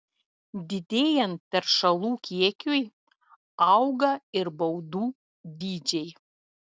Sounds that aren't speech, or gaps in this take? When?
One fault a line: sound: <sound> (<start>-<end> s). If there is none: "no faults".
no faults